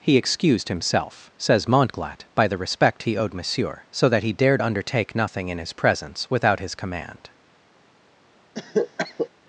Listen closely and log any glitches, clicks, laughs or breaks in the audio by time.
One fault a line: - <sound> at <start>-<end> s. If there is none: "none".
- cough at 8.5-9.3 s